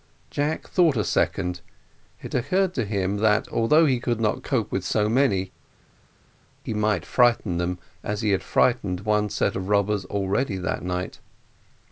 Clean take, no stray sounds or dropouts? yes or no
yes